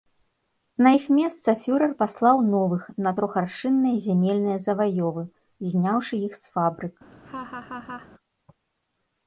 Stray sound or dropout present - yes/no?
yes